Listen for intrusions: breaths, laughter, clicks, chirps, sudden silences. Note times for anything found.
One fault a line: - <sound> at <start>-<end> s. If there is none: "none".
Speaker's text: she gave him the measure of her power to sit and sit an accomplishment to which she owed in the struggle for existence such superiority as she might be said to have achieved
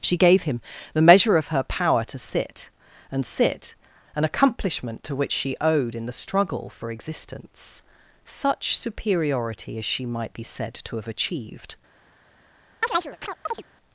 - chirp at 12.8-13.6 s